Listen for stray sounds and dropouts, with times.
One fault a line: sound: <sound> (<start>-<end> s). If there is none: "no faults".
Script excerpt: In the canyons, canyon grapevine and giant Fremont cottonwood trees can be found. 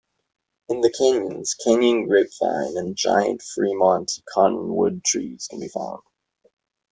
no faults